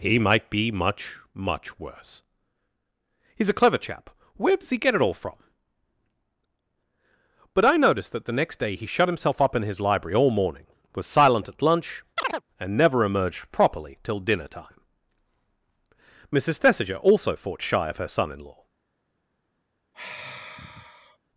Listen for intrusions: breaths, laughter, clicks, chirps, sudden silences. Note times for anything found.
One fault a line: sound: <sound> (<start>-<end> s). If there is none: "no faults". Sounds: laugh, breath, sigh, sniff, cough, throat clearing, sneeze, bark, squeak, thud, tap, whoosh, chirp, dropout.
sound: chirp (12.2-12.4 s)
sound: sigh (19.9-21.2 s)